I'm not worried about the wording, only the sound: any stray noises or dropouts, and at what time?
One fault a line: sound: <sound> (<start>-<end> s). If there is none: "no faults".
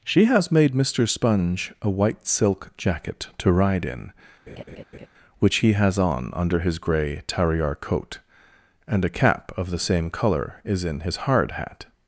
sound: laugh (4.5-5.1 s)